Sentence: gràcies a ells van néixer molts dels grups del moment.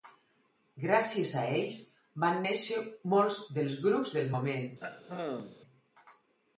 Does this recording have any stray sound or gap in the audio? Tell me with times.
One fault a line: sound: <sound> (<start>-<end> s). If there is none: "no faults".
sound: throat clearing (4.8-5.6 s)